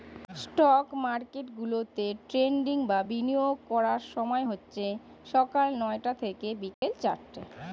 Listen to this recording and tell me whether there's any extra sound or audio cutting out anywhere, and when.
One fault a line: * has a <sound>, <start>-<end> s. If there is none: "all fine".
* has a dropout, 6.7-6.8 s